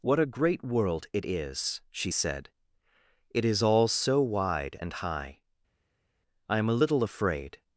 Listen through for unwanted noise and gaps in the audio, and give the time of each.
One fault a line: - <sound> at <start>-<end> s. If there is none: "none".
none